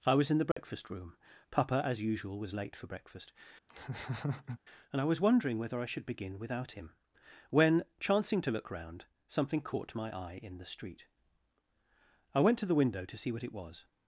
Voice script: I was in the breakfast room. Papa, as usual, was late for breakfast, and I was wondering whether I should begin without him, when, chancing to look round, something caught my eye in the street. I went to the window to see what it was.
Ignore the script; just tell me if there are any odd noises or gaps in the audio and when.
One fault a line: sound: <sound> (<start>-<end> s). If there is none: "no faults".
sound: dropout (0.5-0.6 s)
sound: laugh (3.7-4.6 s)